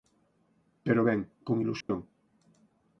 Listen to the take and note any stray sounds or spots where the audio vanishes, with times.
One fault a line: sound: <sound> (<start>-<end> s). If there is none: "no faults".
sound: dropout (1.8-1.9 s)